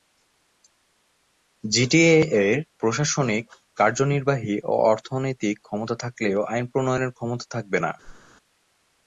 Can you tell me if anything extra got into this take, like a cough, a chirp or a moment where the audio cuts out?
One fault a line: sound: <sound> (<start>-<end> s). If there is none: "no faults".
sound: whoosh (8.0-8.3 s)